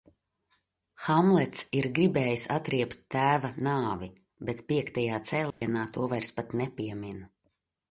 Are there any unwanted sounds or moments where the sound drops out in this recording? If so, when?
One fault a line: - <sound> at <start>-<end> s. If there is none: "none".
- dropout at 5.5-5.6 s